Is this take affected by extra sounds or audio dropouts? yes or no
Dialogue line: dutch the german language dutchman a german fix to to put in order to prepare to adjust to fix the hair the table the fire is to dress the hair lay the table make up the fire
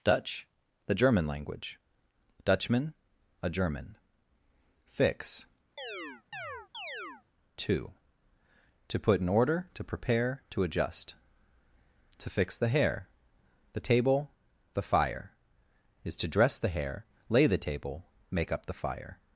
yes